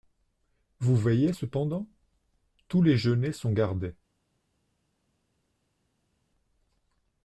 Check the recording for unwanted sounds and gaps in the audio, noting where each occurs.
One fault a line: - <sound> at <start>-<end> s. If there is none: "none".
none